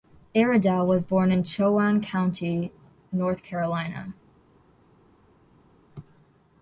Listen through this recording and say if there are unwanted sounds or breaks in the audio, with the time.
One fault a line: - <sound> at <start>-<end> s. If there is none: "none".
none